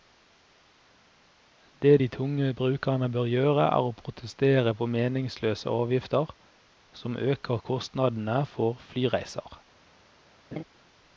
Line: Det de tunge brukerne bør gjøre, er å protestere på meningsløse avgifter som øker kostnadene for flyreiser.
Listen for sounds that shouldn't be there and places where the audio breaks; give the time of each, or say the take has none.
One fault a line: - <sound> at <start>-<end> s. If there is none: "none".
- laugh at 10.5-10.6 s